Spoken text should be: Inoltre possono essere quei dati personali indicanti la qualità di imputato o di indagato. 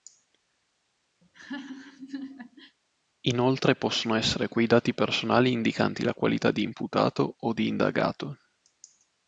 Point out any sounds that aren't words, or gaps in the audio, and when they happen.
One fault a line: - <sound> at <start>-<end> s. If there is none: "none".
- laugh at 1.2-2.8 s